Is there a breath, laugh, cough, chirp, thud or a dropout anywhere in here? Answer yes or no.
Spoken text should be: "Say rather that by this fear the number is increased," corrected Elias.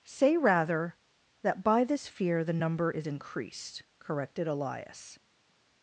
no